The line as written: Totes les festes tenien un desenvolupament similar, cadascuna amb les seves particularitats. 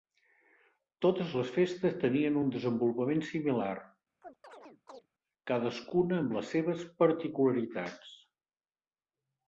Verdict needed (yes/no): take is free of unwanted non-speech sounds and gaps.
no